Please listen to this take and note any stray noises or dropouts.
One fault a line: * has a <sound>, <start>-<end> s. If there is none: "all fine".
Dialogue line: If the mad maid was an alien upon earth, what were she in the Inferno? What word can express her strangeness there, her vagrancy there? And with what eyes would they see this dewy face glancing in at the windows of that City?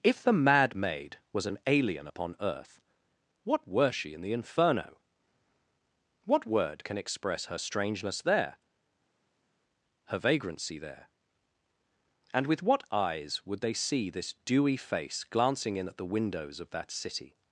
all fine